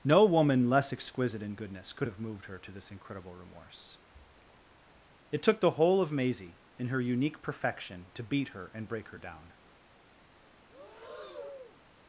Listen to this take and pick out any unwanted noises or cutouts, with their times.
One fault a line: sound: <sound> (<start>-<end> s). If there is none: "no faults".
sound: breath (10.7-11.8 s)